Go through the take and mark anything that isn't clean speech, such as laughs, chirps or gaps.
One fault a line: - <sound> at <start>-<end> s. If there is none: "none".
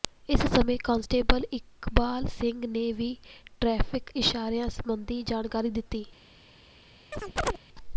- chirp at 7.1-7.6 s